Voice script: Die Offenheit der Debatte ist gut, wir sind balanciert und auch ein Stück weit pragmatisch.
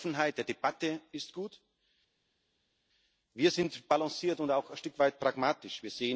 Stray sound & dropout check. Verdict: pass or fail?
pass